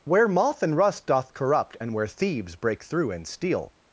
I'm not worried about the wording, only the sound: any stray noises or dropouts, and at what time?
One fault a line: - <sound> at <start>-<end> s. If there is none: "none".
none